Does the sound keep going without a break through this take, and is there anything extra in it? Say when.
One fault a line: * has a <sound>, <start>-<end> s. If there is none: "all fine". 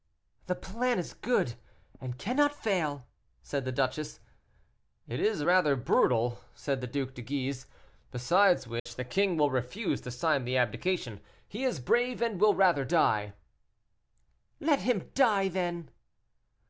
* has a dropout, 8.8-8.9 s